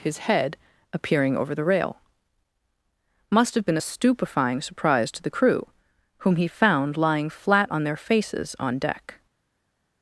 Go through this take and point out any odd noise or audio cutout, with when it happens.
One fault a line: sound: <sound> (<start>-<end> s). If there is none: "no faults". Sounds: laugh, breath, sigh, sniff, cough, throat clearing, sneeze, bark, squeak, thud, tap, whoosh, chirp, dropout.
no faults